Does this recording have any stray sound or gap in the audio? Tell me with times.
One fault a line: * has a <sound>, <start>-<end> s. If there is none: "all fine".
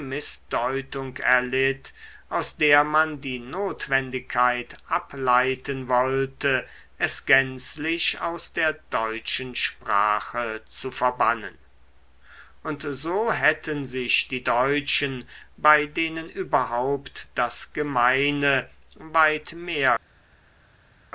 all fine